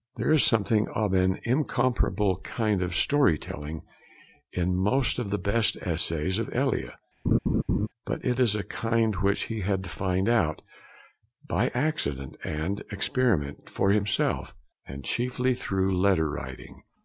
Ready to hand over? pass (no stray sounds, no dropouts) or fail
fail